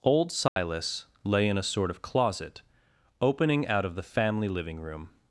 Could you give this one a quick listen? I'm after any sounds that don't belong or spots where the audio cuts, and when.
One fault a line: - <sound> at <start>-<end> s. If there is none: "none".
- dropout at 0.5-0.6 s